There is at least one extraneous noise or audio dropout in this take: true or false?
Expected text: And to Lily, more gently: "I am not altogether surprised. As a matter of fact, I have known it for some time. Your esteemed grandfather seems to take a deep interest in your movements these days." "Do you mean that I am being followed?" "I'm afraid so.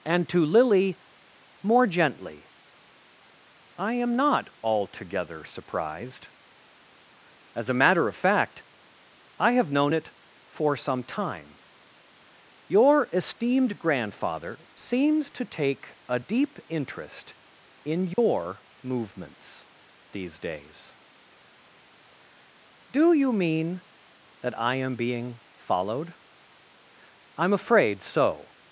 true